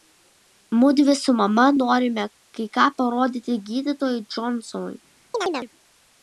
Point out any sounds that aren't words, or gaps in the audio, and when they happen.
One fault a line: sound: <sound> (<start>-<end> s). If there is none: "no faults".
sound: chirp (5.3-5.7 s)